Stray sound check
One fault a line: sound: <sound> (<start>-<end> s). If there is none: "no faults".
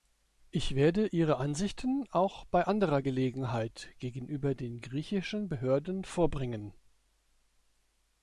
no faults